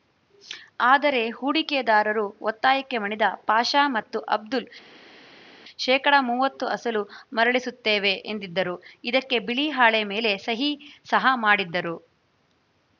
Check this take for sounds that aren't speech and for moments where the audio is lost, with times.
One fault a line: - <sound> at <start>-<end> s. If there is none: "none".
none